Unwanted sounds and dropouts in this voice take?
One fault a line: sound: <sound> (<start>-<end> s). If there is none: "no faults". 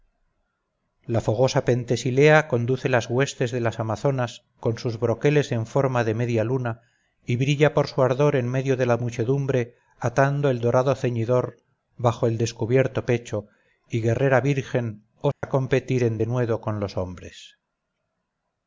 sound: dropout (15.3-15.4 s)